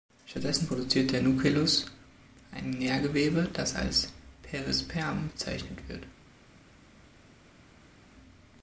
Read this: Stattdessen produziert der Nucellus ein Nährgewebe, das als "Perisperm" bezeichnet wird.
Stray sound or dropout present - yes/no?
no